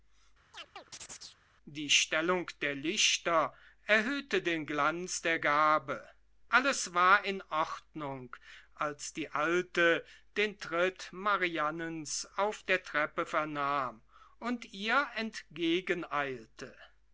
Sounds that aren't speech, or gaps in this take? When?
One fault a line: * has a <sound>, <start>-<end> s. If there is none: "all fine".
* has a chirp, 0.5-1.4 s